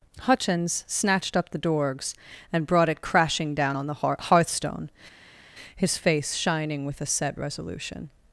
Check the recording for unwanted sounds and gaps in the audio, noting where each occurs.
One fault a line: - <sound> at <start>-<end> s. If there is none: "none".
none